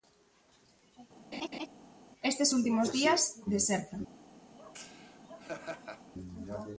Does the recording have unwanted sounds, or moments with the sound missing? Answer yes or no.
yes